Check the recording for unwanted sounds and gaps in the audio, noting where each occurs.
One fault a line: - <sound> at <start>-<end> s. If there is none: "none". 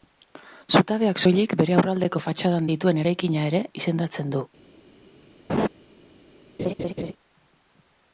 - laugh at 5.5-5.7 s
- laugh at 6.6-7.1 s